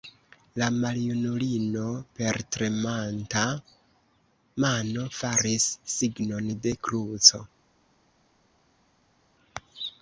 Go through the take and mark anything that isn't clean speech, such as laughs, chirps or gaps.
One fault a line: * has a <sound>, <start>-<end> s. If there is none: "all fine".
all fine